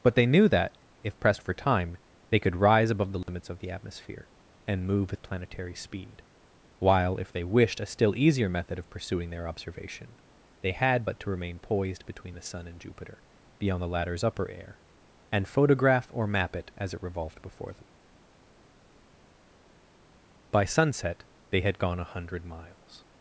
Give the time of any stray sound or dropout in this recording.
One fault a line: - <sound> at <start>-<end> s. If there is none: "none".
- dropout at 3.2-3.3 s